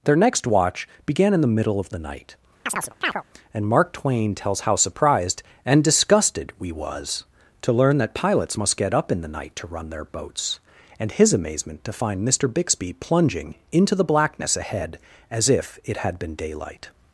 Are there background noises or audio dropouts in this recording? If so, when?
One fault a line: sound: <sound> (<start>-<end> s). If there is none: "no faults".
sound: chirp (2.7-3.2 s)